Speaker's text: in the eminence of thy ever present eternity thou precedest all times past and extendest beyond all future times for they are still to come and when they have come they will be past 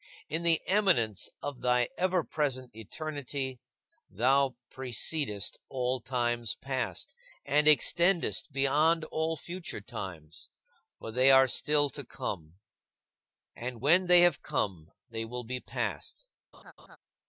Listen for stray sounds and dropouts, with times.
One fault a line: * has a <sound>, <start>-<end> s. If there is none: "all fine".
* has a laugh, 16.5-17.0 s